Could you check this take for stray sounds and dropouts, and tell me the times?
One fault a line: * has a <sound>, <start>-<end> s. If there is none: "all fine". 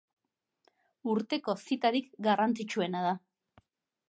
all fine